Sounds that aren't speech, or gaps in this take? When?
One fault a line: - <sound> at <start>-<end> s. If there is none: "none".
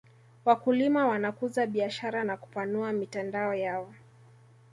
none